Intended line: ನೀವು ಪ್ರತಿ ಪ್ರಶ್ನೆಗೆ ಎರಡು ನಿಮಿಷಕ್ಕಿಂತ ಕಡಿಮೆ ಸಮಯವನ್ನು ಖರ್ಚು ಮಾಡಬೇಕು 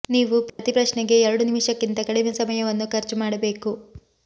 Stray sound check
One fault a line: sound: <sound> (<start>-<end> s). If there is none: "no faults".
sound: dropout (0.5-0.6 s)